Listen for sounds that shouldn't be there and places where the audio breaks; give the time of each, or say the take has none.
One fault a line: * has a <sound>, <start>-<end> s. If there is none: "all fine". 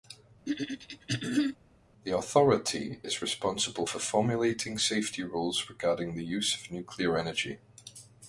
* has a throat clearing, 0.5-1.6 s